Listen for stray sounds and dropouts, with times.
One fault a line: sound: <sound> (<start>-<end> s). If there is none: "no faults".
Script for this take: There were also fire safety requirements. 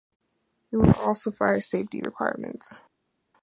no faults